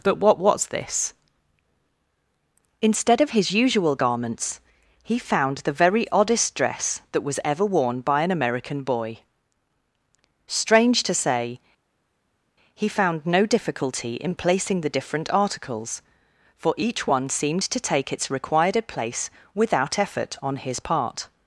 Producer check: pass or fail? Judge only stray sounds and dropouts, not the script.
pass